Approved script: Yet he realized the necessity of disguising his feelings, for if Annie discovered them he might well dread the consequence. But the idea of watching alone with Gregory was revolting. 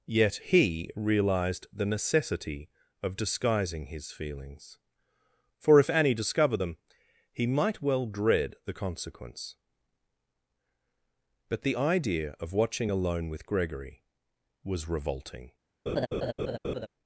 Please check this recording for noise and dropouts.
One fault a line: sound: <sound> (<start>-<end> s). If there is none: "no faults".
sound: laugh (15.9-16.9 s)